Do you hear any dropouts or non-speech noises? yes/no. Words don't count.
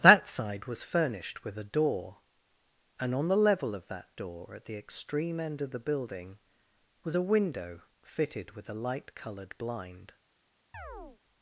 yes